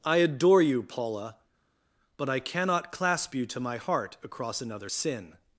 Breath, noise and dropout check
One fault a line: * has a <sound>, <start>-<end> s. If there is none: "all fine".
all fine